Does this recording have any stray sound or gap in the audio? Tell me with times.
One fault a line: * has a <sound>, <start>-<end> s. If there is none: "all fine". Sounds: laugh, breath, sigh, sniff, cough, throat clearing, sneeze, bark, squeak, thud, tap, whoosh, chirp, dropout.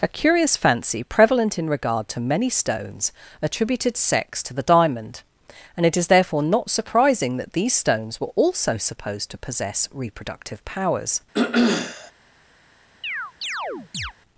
* has a throat clearing, 11.3-12.1 s
* has a chirp, 13.0-14.1 s